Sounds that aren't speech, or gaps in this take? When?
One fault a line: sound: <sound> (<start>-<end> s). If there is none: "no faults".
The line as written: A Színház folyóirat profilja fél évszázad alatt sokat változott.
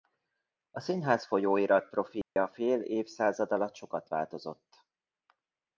sound: dropout (2.2-2.4 s)